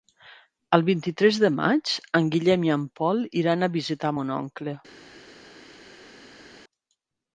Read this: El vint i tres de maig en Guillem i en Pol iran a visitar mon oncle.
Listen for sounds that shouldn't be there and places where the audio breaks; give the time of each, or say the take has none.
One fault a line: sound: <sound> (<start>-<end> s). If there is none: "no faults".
no faults